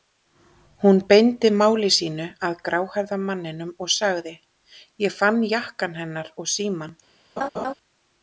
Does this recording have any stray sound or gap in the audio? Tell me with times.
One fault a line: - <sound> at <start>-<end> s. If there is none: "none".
- laugh at 7.4-7.7 s